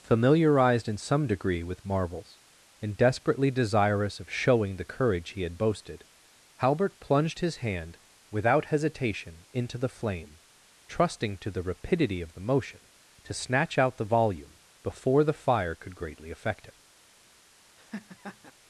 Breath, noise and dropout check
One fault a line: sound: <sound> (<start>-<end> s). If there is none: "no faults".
sound: laugh (17.8-18.5 s)